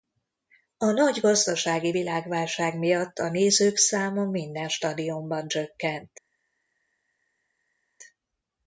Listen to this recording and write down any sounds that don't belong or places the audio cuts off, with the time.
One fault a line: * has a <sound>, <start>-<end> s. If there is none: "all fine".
all fine